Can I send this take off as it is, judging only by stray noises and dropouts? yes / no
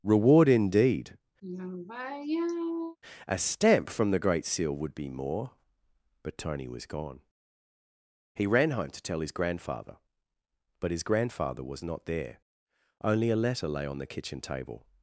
no